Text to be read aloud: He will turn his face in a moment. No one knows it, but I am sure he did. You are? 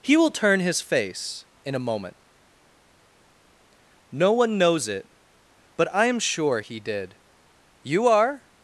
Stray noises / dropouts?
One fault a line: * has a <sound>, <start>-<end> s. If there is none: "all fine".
all fine